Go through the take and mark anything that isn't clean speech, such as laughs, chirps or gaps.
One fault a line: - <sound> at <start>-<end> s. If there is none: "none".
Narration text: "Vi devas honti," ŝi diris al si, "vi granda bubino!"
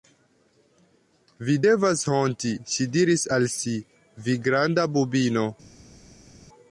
none